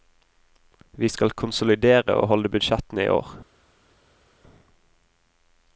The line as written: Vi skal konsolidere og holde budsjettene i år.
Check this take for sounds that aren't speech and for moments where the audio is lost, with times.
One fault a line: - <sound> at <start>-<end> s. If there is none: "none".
none